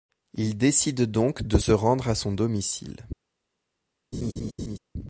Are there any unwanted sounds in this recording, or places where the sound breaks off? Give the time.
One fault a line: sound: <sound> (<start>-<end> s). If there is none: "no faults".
sound: laugh (4.1-4.8 s)